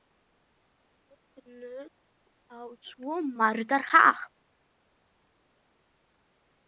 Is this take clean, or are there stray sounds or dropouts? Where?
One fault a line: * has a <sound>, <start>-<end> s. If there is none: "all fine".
all fine